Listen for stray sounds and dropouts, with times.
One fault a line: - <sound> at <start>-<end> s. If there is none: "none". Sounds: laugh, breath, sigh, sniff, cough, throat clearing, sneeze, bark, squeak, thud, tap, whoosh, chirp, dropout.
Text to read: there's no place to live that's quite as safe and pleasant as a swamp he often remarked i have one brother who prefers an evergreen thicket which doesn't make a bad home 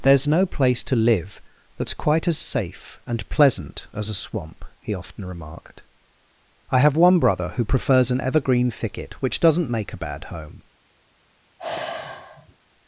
- sigh at 11.6-12.6 s